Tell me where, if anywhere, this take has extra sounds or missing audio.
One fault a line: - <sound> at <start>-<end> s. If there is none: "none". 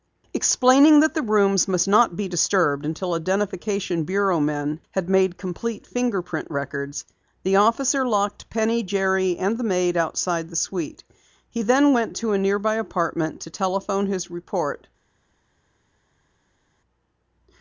none